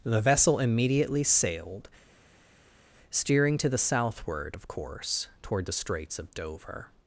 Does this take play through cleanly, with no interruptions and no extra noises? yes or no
yes